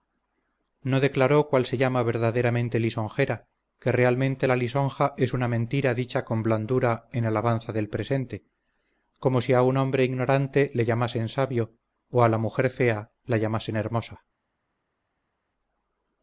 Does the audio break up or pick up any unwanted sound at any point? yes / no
no